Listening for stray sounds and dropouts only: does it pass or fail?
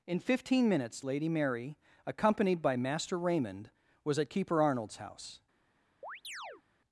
fail